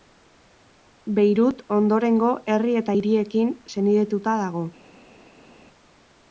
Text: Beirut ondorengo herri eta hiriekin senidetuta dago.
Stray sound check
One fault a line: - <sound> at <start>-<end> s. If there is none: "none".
none